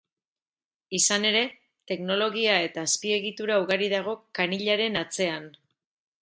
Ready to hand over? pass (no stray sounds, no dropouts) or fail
pass